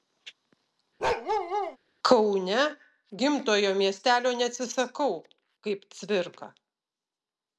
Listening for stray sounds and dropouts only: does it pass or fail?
fail